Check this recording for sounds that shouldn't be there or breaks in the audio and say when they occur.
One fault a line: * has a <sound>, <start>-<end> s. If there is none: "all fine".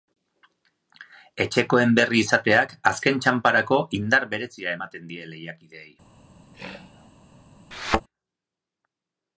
* has a throat clearing, 6.5-7.1 s
* has a thud, 7.7-8.0 s